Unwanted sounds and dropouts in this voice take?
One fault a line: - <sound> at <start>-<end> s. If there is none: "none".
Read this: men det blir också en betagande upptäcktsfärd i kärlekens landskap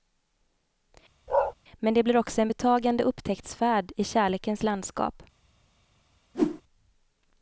- bark at 1.3-1.5 s
- whoosh at 6.3-6.6 s